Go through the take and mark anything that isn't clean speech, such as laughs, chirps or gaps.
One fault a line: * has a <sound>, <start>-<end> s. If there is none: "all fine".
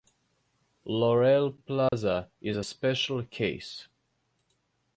* has a dropout, 1.9-1.9 s